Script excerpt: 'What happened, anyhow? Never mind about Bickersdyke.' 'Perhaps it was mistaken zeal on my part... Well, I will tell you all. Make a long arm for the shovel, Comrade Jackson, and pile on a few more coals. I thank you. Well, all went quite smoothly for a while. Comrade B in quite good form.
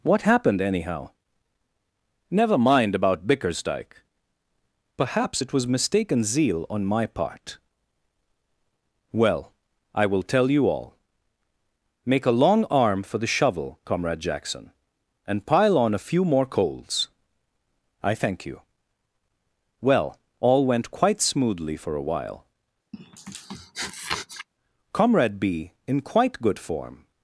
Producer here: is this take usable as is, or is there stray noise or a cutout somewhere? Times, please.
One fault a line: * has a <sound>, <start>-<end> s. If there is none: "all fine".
* has a sniff, 22.9-24.5 s